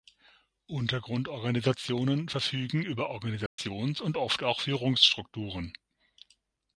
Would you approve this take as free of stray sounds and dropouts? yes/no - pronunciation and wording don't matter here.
no